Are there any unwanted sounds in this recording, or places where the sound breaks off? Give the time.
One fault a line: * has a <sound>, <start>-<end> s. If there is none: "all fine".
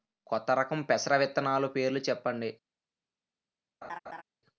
* has a laugh, 3.8-4.2 s